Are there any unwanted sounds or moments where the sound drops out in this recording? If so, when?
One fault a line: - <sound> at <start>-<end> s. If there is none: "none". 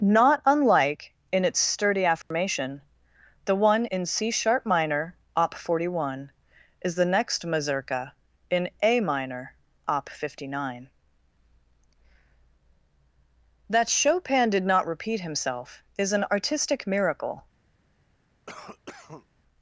- dropout at 2.2-2.3 s
- cough at 18.5-19.3 s